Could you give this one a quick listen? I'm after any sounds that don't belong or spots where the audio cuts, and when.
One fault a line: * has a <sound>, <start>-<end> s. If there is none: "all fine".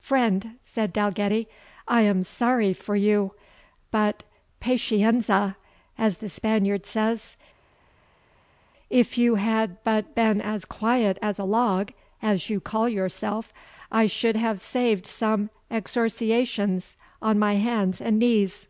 all fine